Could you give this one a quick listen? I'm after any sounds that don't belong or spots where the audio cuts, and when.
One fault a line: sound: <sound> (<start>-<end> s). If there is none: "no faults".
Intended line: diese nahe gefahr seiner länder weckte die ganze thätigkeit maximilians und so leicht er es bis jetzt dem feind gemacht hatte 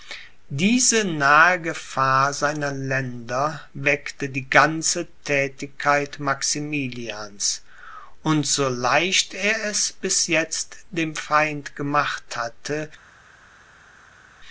no faults